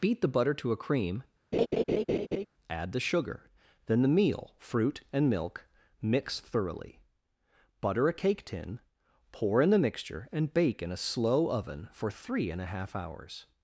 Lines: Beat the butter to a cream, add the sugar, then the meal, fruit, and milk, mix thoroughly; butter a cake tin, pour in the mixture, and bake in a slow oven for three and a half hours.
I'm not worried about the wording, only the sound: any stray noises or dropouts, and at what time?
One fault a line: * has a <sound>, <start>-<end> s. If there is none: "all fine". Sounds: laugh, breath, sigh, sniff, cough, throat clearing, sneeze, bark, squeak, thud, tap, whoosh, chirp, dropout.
* has a laugh, 1.5-2.5 s